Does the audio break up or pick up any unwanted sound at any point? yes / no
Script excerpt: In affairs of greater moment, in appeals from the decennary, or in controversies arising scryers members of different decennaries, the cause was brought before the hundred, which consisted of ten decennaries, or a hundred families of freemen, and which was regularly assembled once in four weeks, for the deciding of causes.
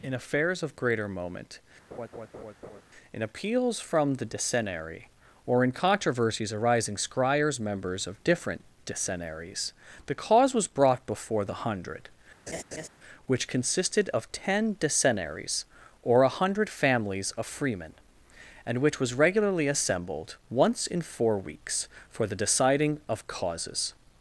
yes